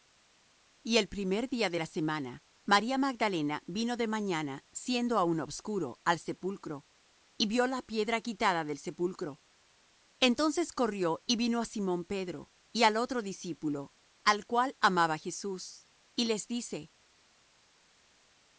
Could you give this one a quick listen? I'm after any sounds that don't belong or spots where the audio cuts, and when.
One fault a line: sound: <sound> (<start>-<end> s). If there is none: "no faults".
no faults